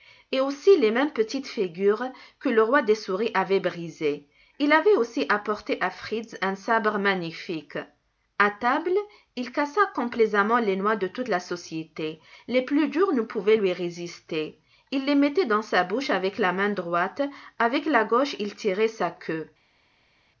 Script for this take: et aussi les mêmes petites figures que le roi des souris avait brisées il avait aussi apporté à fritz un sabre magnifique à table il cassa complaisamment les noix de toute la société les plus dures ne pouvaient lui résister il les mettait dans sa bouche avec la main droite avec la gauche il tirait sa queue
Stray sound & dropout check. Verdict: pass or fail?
pass